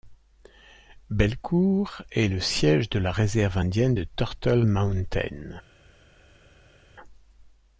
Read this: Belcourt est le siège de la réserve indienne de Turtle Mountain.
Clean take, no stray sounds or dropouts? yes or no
yes